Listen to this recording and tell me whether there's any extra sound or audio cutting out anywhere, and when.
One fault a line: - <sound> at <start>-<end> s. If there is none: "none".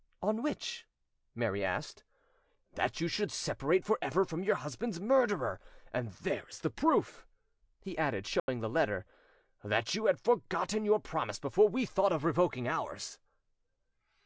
- dropout at 8.4-8.5 s